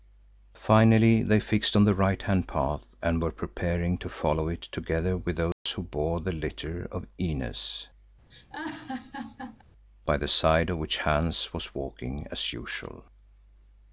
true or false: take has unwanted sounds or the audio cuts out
true